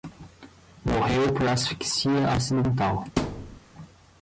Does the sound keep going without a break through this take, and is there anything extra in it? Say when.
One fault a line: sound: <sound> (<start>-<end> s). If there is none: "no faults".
sound: thud (3.2-3.6 s)